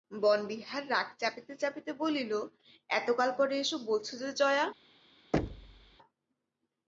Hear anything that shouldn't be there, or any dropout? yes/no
yes